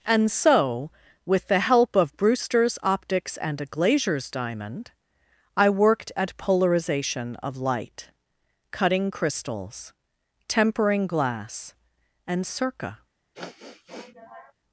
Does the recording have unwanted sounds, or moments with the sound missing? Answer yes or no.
yes